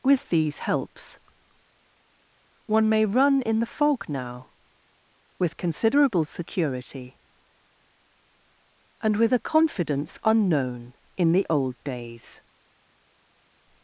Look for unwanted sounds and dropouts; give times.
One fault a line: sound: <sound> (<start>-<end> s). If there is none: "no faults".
no faults